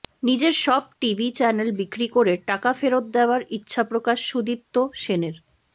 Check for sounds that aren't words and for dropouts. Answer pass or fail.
pass